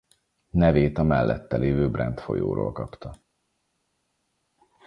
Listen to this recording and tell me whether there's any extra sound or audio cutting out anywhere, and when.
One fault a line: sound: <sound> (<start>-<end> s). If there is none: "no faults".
no faults